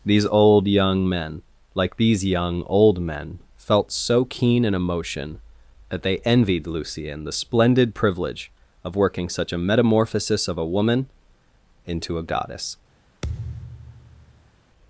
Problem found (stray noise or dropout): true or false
true